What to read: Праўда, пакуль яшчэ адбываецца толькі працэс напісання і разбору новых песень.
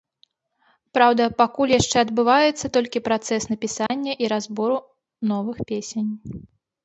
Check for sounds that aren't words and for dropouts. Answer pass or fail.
fail